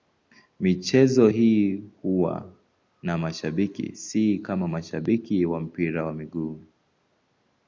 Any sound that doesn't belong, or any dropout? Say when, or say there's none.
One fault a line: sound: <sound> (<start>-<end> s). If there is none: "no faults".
no faults